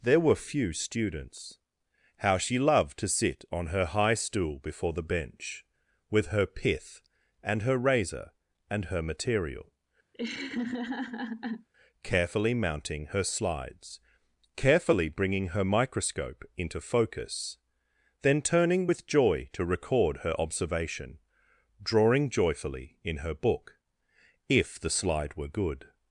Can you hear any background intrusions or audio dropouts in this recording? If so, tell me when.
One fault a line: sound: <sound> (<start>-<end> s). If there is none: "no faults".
sound: laugh (10.1-11.7 s)